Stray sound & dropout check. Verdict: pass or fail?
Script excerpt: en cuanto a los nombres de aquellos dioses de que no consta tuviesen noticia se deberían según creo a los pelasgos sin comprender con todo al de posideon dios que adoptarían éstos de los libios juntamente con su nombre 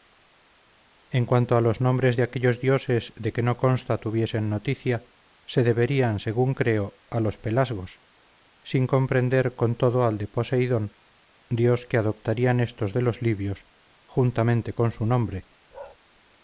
fail